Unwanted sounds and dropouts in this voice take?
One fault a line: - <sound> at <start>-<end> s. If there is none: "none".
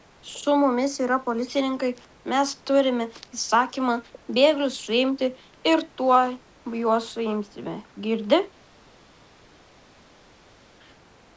none